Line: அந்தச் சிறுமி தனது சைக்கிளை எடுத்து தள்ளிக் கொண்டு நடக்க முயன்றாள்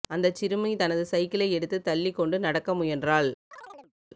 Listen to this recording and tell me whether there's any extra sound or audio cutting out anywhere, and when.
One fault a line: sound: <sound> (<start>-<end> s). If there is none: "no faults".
sound: chirp (3.5-3.9 s)